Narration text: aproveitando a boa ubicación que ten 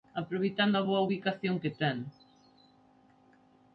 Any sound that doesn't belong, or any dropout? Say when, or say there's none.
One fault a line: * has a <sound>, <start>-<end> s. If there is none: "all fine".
all fine